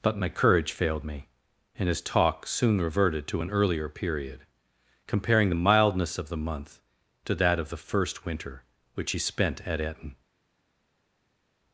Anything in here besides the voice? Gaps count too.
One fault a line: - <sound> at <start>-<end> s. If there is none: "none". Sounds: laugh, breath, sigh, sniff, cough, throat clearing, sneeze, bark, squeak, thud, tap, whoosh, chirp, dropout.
none